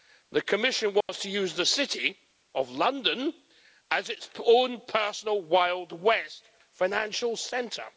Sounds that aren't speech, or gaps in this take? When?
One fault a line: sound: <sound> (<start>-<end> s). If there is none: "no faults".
sound: dropout (1.0-1.1 s)